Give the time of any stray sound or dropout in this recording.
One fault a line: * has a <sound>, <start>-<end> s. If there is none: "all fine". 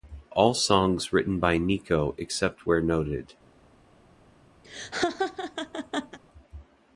* has a laugh, 4.6-6.2 s